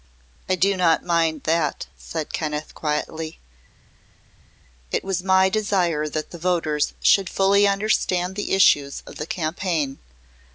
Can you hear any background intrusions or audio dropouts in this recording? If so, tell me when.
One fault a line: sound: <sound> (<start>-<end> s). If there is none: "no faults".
no faults